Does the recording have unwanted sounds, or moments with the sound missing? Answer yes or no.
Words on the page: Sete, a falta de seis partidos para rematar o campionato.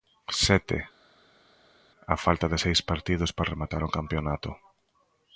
no